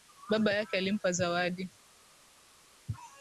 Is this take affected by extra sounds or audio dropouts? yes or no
no